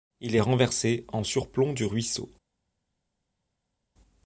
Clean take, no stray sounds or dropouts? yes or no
yes